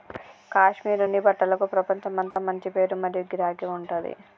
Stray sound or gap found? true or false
true